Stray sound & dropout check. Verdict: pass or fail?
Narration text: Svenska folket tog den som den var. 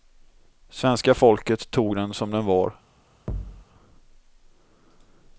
fail